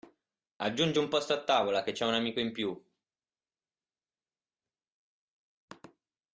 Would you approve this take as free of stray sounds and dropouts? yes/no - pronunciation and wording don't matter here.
yes